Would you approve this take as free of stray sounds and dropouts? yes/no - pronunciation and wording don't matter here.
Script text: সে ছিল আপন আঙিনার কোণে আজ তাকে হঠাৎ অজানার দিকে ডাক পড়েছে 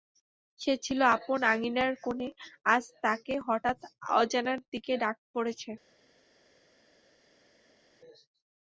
yes